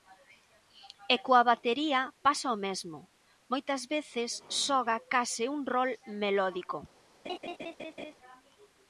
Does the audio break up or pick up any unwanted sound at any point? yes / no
yes